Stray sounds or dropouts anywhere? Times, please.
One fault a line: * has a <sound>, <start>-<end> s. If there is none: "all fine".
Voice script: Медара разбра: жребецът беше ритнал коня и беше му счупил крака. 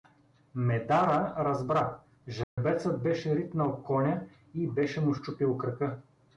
* has a dropout, 2.4-2.6 s